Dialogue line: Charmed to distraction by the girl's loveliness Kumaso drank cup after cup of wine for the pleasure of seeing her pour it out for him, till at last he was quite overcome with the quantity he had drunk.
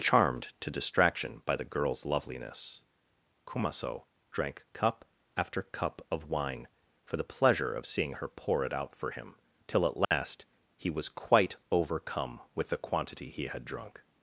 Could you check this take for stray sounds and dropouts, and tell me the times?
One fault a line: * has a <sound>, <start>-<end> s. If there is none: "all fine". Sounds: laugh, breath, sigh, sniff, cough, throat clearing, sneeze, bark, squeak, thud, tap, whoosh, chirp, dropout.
* has a dropout, 10.0-10.1 s